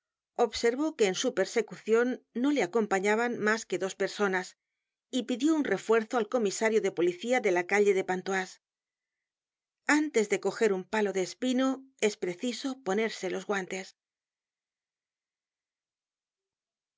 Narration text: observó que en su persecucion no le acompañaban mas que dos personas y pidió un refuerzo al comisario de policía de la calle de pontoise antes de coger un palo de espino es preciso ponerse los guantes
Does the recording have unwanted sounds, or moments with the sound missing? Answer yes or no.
no